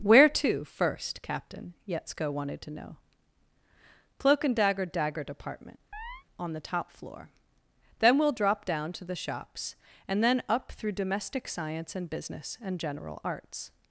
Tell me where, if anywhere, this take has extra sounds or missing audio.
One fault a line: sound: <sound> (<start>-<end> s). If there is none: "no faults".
sound: chirp (5.9-6.2 s)